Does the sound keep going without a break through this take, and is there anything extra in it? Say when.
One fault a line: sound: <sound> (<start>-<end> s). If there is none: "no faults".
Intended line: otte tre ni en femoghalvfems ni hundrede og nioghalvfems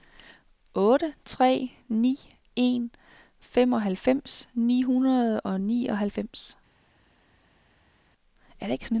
no faults